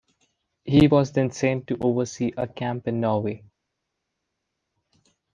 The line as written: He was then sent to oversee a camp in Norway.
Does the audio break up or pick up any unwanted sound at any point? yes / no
no